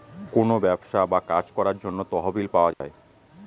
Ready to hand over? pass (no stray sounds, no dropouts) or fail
fail